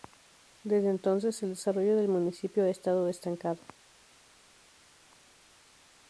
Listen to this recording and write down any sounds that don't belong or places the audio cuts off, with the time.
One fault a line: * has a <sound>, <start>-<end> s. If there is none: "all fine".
all fine